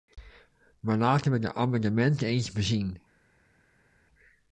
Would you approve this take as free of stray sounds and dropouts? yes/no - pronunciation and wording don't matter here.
yes